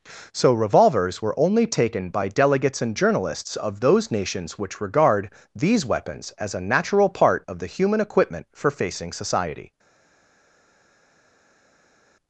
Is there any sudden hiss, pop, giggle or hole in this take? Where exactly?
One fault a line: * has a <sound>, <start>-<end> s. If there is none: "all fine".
all fine